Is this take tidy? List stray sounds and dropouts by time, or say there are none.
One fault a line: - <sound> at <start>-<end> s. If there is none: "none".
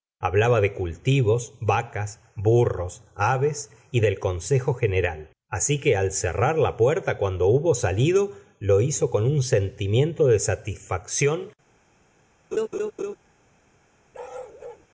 - laugh at 12.5-13.2 s
- bark at 14.1-14.9 s